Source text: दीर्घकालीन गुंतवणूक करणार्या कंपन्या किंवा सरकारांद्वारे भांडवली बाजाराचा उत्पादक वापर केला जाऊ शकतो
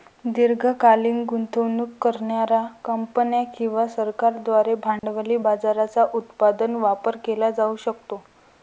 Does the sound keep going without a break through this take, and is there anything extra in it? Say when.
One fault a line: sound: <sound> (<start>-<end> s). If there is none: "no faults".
sound: dropout (5.0-5.0 s)